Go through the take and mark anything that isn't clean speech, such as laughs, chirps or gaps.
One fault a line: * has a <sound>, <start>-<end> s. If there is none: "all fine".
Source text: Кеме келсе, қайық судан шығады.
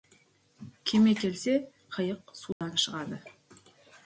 * has a dropout, 2.5-2.6 s